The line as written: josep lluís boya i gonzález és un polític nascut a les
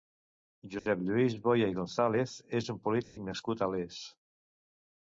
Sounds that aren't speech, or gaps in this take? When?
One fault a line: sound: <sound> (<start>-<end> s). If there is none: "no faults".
sound: dropout (0.8-0.9 s)
sound: dropout (3.0-3.2 s)